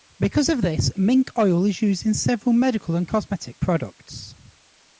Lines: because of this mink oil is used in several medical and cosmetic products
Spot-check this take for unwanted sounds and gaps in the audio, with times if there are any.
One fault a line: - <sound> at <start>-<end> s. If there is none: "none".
none